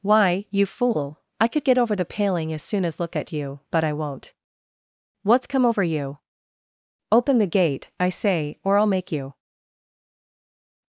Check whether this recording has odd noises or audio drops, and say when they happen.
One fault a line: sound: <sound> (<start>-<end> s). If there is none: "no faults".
no faults